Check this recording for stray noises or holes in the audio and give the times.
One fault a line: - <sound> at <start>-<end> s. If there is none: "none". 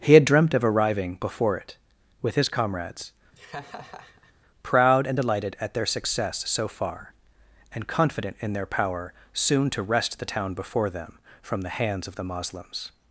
- laugh at 3.3-4.3 s